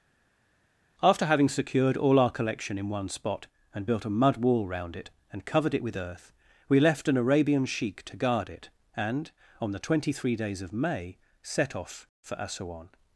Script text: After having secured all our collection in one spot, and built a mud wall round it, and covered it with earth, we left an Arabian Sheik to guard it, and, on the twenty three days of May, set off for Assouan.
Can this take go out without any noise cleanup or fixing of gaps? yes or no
yes